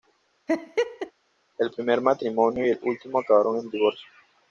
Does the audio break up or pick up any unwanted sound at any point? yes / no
yes